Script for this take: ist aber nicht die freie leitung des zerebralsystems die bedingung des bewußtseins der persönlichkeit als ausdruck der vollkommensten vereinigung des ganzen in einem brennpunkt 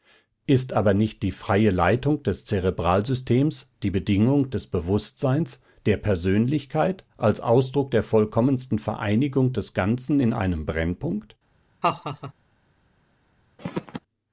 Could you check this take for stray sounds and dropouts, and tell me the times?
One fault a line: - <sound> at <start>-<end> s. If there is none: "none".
- laugh at 11.8-12.3 s
- throat clearing at 13.6-14.0 s